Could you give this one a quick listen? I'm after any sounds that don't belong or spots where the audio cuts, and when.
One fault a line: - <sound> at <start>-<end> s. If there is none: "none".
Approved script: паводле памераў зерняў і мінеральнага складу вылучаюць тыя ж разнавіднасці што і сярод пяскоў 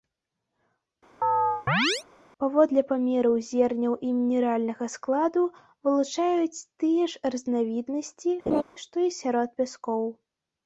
- chirp at 1.2-2.0 s
- laugh at 8.5-8.6 s